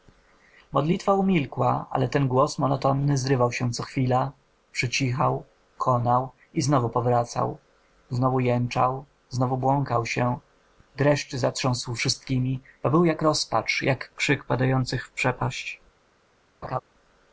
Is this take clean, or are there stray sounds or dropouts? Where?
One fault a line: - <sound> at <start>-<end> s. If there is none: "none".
- laugh at 16.6-16.8 s